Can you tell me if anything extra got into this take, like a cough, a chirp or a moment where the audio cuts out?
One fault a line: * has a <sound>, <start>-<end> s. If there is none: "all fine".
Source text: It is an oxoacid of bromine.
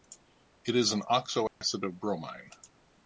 * has a dropout, 1.5-1.6 s